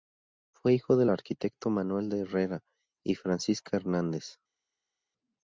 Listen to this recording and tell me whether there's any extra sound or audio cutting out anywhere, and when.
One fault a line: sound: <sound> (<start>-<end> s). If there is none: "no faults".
no faults